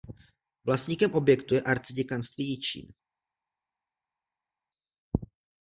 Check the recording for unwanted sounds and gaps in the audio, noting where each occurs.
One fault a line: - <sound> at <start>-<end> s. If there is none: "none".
none